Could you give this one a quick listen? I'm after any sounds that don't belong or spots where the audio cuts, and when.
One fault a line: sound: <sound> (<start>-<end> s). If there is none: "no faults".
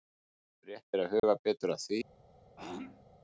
sound: dropout (1.2-1.2 s)
sound: throat clearing (2.6-3.0 s)